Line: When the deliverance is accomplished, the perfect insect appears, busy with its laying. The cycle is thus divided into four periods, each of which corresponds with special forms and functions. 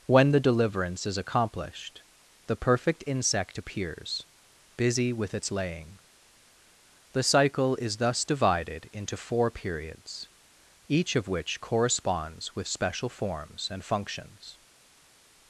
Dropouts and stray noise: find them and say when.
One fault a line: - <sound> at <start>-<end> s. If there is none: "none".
none